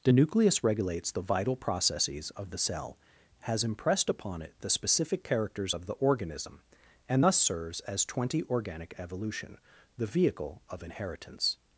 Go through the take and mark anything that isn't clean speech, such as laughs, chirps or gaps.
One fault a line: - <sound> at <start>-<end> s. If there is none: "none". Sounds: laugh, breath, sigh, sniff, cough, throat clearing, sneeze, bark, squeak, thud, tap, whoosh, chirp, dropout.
none